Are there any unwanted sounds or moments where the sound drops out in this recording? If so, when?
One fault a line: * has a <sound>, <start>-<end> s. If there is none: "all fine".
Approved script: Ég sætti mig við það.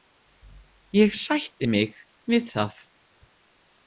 all fine